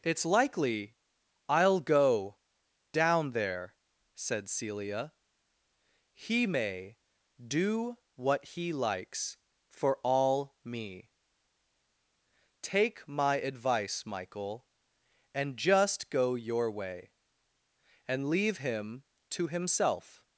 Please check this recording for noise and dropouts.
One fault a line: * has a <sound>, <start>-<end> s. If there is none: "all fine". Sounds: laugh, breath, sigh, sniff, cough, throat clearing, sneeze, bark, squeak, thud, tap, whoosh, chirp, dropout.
all fine